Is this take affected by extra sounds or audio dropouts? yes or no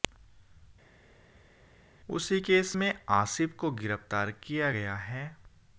no